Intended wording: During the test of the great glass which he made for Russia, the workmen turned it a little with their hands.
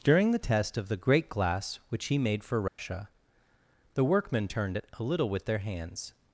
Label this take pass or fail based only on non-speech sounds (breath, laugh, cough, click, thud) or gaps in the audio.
fail